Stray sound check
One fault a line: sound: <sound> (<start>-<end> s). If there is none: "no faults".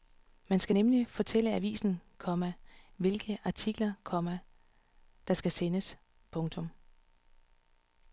no faults